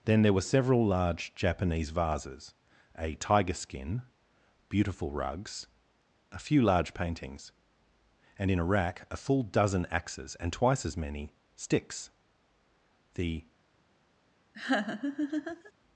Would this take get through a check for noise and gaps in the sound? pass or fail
fail